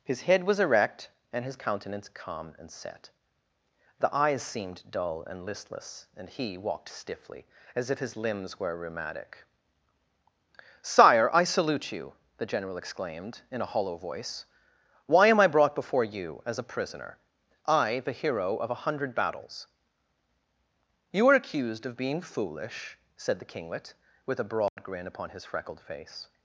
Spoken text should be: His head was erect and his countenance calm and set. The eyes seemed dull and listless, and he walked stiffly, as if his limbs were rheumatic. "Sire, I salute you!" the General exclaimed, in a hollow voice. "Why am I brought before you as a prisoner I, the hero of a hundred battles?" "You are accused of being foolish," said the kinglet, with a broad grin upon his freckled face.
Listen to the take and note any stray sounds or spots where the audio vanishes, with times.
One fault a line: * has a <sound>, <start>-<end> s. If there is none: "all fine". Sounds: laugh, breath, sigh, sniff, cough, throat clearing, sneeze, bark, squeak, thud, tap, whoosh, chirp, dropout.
* has a dropout, 24.7-24.8 s